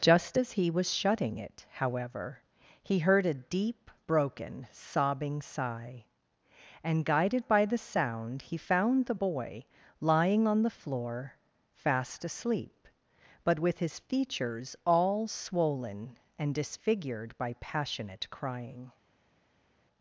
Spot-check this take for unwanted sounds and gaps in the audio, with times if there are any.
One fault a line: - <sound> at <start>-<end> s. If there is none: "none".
none